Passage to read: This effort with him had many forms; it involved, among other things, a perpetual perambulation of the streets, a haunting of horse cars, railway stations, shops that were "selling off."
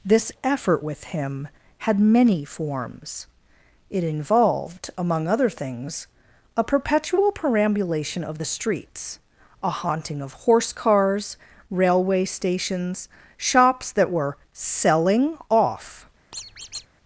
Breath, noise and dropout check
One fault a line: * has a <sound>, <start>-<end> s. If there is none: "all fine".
* has a squeak, 16.3-16.9 s